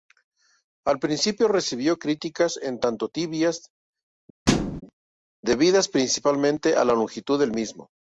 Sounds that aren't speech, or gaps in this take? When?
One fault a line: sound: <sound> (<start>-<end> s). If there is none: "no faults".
sound: thud (4.5-4.8 s)